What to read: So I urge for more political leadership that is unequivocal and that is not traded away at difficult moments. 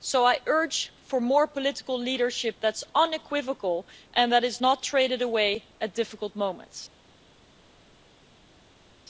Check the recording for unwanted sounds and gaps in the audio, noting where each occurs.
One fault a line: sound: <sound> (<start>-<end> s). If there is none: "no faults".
no faults